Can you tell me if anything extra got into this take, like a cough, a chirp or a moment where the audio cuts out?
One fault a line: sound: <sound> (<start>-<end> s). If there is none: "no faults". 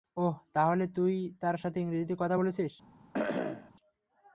sound: cough (3.1-3.7 s)